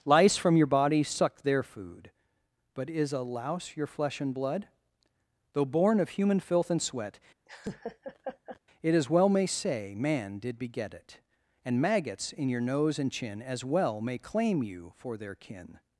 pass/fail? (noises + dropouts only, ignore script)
fail